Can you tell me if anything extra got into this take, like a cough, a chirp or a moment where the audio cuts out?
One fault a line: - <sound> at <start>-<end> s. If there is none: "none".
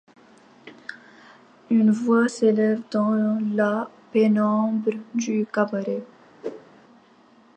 - whoosh at 6.4-6.7 s